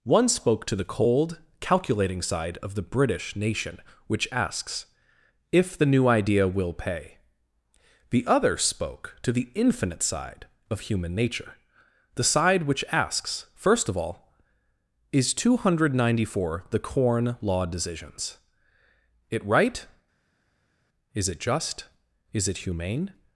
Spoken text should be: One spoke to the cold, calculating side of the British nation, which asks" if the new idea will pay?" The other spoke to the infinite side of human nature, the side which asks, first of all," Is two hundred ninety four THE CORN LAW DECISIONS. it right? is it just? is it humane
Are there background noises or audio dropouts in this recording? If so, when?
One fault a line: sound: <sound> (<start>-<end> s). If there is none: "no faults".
no faults